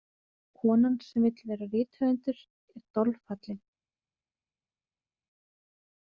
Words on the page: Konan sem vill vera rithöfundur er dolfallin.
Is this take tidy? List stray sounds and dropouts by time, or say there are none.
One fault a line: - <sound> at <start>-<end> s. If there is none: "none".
none